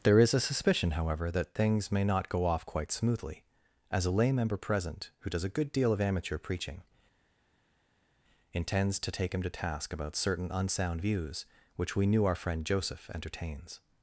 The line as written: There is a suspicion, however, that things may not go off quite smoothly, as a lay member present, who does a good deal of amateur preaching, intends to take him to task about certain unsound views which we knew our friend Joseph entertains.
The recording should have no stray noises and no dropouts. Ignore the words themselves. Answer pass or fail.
pass